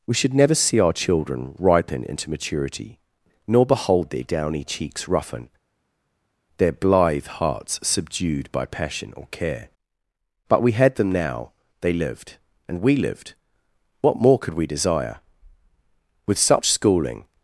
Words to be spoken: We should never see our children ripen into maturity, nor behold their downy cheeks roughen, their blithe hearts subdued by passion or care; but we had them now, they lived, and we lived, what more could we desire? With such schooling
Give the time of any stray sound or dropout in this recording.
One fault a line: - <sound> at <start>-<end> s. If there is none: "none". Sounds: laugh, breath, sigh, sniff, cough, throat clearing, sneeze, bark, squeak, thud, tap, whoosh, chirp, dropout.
none